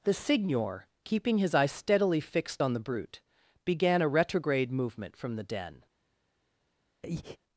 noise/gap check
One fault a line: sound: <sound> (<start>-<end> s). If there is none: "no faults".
sound: breath (7.0-7.4 s)